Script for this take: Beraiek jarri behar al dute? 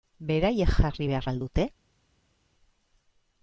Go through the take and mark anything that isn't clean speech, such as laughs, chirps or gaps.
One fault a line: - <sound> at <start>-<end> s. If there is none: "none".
none